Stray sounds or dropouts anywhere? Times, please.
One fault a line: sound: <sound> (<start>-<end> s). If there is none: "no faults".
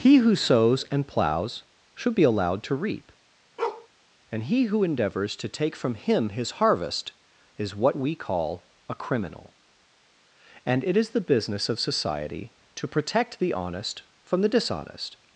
sound: bark (3.6-3.9 s)